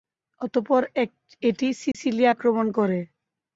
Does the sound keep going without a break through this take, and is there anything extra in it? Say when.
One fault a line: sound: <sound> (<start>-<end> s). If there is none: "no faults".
sound: dropout (1.9-1.9 s)